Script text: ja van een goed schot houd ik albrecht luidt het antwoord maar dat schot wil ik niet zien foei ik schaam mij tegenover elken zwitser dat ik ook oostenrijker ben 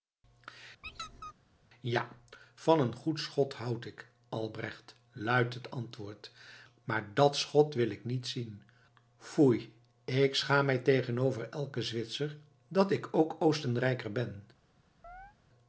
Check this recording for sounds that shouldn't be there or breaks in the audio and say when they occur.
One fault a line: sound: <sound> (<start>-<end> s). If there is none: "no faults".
sound: squeak (0.8-1.3 s)
sound: chirp (15.0-15.4 s)